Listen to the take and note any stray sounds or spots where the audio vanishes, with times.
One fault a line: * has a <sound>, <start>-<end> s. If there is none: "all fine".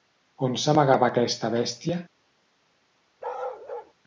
* has a bark, 3.2-3.9 s